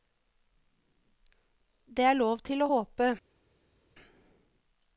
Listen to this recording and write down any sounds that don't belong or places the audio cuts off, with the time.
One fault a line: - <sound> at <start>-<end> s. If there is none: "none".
none